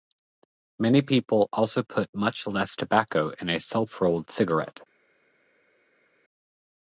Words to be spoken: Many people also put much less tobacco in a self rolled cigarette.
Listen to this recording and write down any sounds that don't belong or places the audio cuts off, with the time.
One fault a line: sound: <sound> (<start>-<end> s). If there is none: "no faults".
no faults